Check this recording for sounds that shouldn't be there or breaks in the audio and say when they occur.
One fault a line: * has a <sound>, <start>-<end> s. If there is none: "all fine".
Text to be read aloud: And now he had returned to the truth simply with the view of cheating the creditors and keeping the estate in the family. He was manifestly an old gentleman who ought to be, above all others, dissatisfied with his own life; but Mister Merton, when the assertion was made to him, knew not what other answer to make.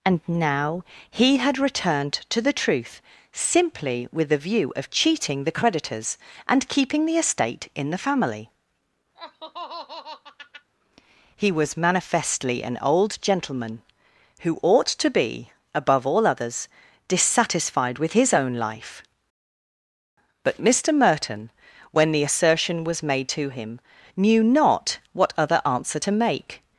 * has a laugh, 9.1-10.7 s